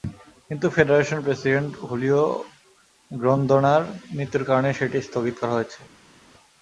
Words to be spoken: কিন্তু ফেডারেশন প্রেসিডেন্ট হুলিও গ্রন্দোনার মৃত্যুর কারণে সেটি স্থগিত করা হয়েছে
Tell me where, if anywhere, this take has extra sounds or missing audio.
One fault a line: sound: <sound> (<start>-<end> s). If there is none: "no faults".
no faults